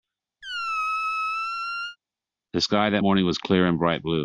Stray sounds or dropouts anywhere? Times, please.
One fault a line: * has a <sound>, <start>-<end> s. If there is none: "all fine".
* has a squeak, 0.4-2.0 s